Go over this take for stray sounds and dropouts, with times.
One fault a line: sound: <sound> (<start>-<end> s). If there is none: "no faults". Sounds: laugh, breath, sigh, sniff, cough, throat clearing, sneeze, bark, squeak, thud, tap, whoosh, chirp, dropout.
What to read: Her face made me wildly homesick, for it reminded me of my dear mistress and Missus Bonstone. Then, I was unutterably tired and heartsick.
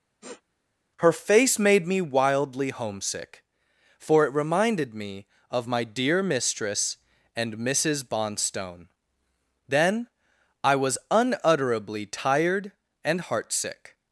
sound: sniff (0.2-0.4 s)